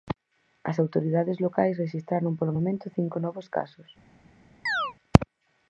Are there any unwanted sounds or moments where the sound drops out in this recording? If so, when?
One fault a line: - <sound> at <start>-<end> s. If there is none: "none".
- chirp at 4.7-4.9 s